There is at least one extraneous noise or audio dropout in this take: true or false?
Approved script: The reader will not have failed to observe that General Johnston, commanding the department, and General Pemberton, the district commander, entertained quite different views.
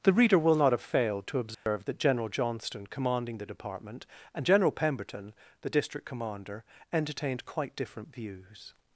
true